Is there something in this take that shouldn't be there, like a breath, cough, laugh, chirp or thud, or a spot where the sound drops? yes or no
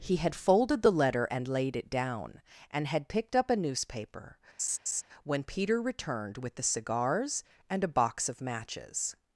yes